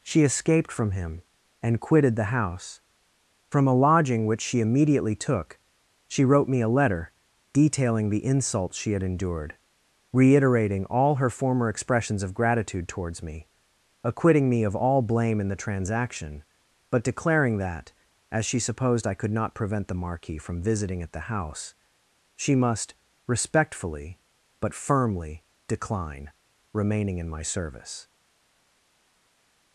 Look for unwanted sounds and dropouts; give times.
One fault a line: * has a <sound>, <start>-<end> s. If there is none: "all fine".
all fine